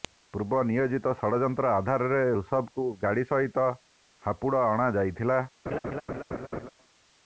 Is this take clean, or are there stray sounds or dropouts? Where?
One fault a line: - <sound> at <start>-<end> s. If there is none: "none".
- laugh at 5.7-6.7 s